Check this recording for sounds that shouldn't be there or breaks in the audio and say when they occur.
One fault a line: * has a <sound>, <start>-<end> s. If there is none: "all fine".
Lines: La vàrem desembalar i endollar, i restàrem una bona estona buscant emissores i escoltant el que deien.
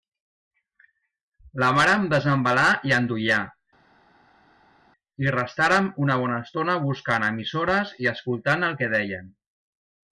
all fine